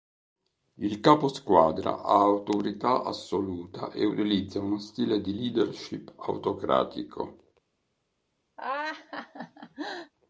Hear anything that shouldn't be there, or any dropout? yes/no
yes